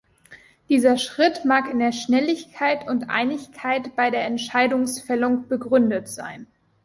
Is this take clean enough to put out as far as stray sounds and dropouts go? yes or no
yes